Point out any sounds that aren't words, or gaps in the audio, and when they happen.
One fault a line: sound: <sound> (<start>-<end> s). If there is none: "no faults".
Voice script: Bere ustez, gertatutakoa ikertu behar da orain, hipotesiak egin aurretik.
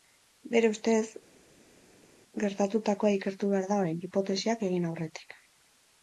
no faults